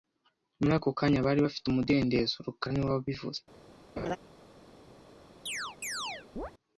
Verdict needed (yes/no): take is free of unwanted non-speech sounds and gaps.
no